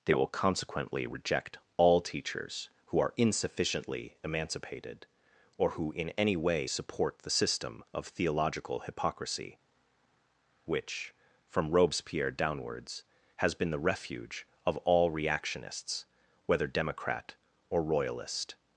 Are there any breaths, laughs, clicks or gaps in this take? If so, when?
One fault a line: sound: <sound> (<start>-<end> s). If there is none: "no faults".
no faults